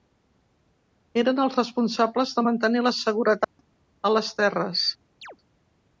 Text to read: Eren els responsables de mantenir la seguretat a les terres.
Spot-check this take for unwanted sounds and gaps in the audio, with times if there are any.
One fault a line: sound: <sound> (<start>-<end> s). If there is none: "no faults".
sound: dropout (3.4-3.6 s)
sound: chirp (5.2-5.4 s)